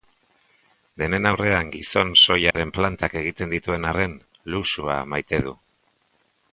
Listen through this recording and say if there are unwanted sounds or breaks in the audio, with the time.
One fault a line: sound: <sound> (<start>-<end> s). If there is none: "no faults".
sound: dropout (2.5-2.5 s)